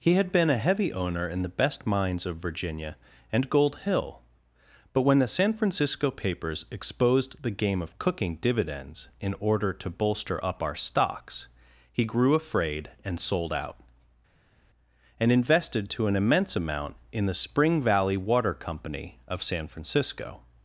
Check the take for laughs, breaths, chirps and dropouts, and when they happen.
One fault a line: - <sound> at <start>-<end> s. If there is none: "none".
none